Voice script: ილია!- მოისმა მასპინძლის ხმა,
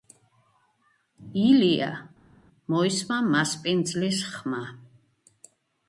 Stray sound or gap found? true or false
false